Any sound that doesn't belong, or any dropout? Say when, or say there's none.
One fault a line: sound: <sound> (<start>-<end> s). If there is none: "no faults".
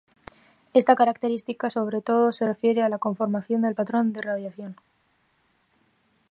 no faults